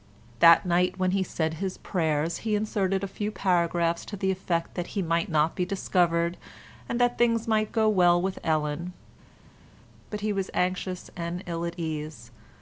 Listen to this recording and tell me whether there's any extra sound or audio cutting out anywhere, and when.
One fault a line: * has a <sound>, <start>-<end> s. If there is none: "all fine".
all fine